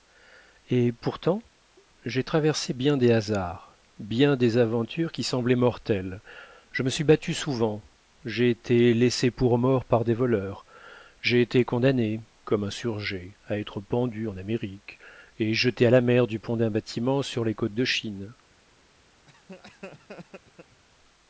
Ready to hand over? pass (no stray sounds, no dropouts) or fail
fail